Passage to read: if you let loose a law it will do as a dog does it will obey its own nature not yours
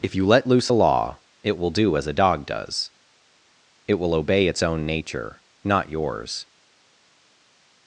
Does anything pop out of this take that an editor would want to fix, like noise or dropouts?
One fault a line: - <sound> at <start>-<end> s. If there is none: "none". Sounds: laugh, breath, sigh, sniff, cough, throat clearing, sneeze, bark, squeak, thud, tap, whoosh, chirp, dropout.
none